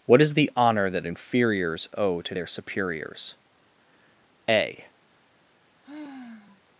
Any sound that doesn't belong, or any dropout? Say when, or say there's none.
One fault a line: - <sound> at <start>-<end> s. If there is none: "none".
- sigh at 5.8-6.6 s